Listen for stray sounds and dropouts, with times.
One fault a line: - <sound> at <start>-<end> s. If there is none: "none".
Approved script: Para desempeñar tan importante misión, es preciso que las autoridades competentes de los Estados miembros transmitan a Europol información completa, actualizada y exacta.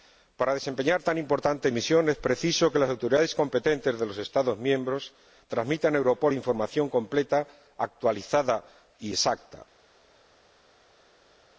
none